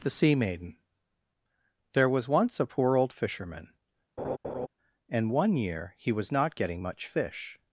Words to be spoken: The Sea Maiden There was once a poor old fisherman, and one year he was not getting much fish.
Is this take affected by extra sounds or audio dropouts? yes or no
yes